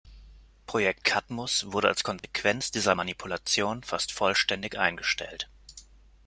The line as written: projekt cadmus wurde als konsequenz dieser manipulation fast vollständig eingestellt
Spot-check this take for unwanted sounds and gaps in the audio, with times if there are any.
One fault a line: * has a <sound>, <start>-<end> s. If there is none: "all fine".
* has a dropout, 2.2-2.2 s